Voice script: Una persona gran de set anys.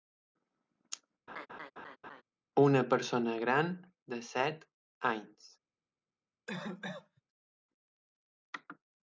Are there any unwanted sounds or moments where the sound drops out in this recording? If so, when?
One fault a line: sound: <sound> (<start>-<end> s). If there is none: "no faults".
sound: laugh (1.3-2.2 s)
sound: cough (6.5-7.2 s)